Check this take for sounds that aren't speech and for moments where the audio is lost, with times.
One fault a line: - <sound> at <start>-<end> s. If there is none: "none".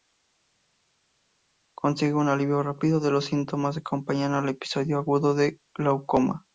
none